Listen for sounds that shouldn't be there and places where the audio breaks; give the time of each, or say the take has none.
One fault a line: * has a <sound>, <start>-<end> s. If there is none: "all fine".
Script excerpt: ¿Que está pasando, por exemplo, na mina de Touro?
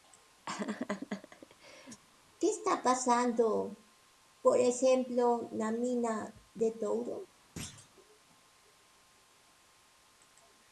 * has a laugh, 0.5-2.0 s
* has a thud, 7.6-7.9 s